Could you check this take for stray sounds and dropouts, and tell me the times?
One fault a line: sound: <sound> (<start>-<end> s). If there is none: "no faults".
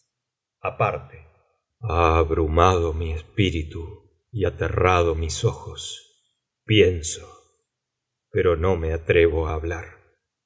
no faults